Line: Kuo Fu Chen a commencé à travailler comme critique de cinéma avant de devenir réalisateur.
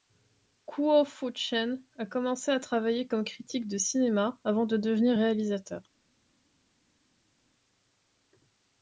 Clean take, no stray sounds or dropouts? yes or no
yes